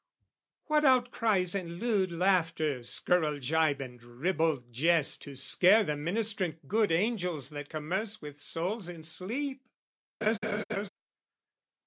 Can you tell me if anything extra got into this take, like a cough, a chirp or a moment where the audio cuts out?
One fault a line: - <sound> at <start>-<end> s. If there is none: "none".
- laugh at 10.2-10.9 s